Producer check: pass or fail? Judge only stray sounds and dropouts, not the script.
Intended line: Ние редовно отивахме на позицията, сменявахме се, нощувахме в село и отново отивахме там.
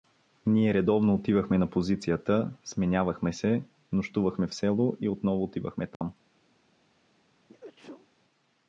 fail